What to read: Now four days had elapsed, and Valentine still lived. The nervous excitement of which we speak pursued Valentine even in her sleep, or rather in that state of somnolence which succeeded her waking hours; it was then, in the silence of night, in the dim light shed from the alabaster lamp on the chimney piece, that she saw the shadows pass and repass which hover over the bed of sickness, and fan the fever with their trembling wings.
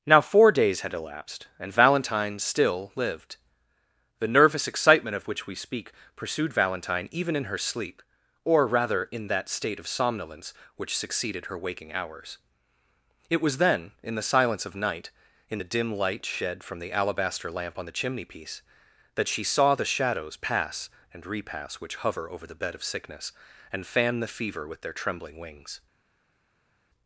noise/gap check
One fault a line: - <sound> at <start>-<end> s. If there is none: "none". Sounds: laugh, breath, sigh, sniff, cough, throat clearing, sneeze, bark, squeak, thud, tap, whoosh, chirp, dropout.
none